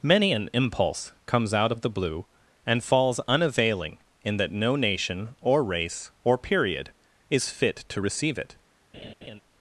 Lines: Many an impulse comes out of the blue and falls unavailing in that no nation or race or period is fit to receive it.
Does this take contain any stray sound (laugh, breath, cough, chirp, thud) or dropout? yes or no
yes